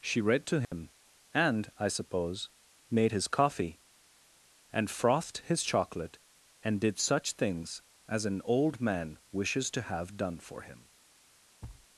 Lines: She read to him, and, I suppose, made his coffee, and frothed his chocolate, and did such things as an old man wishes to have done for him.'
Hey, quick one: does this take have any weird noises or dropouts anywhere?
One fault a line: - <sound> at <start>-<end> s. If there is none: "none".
- dropout at 0.6-0.7 s
- thud at 11.6-11.9 s